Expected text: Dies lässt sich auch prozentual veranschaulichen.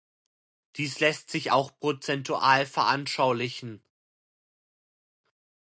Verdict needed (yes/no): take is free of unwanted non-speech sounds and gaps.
yes